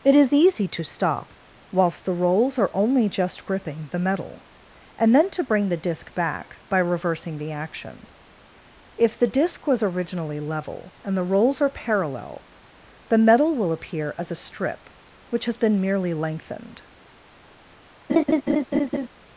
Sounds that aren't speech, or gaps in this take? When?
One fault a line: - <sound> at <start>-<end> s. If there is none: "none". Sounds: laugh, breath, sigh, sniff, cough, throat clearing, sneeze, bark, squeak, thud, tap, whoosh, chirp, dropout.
- laugh at 18.1-19.1 s